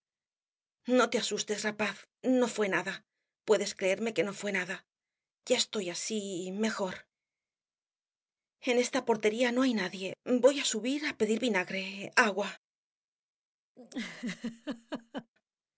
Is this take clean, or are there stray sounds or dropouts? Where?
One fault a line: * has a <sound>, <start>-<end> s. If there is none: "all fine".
* has a laugh, 13.8-15.3 s